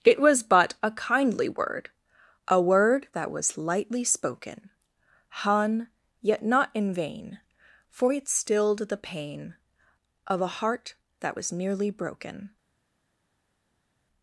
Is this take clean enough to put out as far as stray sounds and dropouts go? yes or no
yes